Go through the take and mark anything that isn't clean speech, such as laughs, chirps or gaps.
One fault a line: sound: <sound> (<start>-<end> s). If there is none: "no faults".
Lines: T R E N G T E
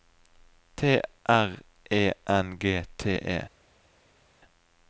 no faults